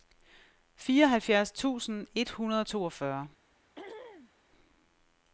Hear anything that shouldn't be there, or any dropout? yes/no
yes